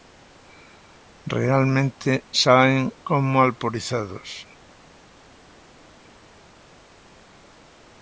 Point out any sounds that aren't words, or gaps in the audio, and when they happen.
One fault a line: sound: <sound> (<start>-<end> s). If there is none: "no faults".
no faults